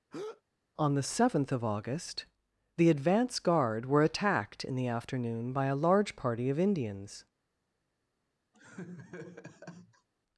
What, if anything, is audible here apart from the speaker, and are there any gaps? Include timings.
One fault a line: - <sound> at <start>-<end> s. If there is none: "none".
- breath at 0.1-0.4 s
- laugh at 8.5-10.1 s